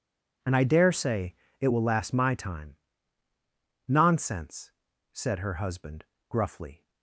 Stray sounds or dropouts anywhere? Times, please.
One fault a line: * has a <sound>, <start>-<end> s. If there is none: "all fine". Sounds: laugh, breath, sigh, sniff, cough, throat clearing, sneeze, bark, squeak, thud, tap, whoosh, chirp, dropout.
all fine